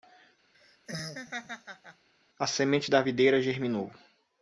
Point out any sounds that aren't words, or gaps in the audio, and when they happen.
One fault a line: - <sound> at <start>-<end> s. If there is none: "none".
- laugh at 0.5-2.1 s